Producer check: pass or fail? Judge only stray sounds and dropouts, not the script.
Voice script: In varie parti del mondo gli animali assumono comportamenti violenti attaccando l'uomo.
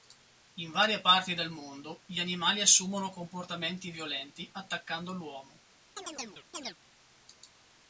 fail